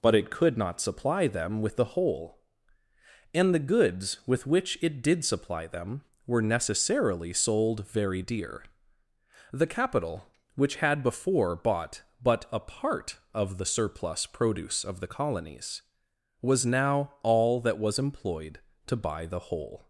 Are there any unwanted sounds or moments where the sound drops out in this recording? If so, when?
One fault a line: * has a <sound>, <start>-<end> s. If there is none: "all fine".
all fine